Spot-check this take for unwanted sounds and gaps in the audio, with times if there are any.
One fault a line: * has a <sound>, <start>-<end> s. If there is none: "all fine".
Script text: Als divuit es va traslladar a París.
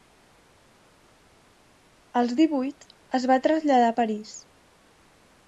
all fine